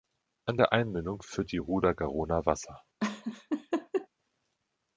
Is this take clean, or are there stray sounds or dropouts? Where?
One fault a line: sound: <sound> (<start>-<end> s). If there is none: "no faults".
sound: laugh (3.0-4.1 s)